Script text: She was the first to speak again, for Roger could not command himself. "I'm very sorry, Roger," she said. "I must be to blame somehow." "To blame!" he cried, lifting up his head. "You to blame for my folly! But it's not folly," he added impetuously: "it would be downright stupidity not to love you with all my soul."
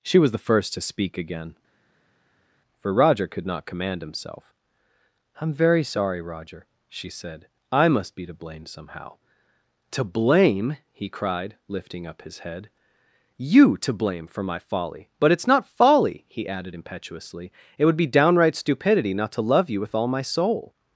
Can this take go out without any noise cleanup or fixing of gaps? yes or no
yes